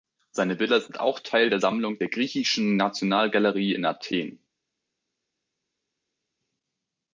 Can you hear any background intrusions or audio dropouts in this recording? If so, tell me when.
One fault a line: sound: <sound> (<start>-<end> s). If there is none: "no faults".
no faults